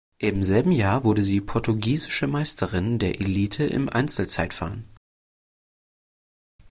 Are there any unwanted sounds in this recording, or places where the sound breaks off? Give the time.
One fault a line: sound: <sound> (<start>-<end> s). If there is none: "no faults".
no faults